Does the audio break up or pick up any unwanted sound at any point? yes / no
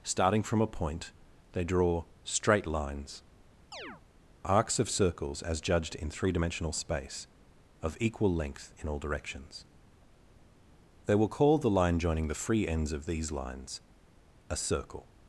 yes